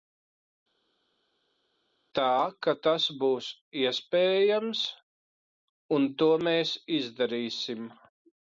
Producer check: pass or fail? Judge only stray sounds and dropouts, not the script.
pass